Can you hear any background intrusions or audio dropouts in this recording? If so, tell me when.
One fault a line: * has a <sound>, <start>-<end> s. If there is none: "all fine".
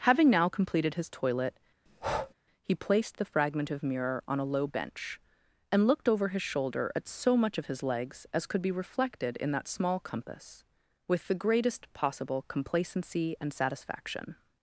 * has a breath, 1.9-2.3 s